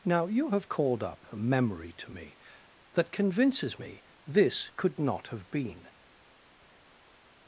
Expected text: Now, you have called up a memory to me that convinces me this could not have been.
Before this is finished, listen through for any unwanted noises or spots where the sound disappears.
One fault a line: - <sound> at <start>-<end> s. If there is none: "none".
none